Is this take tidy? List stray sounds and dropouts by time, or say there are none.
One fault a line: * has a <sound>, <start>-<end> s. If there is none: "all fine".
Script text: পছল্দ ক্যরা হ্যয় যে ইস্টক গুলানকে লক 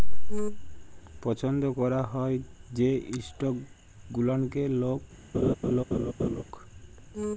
* has a laugh, 5.3-6.4 s